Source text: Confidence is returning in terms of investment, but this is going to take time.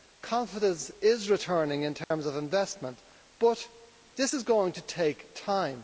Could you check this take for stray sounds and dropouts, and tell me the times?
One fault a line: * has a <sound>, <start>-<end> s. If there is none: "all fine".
* has a dropout, 2.0-2.1 s